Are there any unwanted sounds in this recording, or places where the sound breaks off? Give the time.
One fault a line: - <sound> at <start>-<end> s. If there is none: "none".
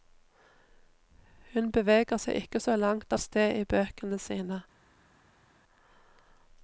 none